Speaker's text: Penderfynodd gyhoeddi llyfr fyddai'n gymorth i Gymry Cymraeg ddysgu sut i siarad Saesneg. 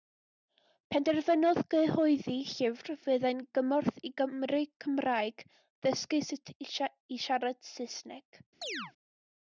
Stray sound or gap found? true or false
true